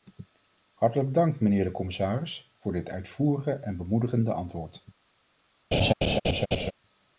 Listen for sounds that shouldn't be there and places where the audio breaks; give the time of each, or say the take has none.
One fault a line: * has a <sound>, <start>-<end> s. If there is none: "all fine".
* has a laugh, 5.7-6.7 s